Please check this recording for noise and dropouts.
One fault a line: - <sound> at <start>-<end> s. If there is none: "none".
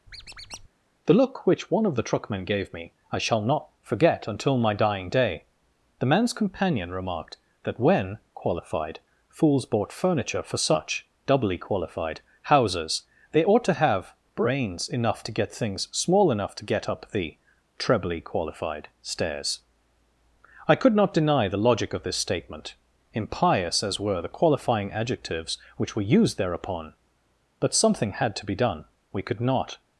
- squeak at 0.1-0.7 s